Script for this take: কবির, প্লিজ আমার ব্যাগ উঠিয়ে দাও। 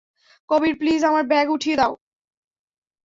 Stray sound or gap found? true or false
false